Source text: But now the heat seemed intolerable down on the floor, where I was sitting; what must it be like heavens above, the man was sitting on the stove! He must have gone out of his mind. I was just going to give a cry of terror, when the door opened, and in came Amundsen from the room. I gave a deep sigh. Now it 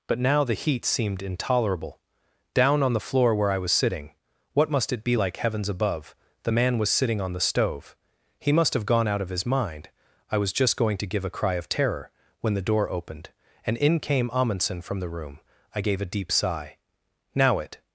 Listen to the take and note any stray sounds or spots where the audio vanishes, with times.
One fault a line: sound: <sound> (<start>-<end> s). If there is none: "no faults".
no faults